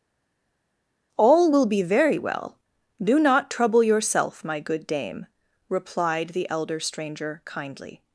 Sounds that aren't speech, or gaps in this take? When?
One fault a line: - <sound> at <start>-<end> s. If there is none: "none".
none